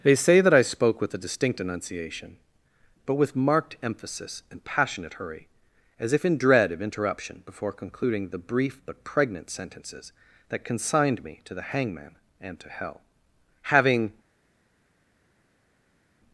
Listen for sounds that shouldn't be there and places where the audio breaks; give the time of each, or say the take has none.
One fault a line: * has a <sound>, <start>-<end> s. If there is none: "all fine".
all fine